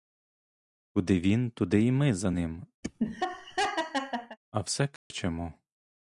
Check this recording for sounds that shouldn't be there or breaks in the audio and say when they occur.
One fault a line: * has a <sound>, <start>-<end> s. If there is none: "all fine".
* has a laugh, 2.8-4.4 s
* has a dropout, 5.0-5.1 s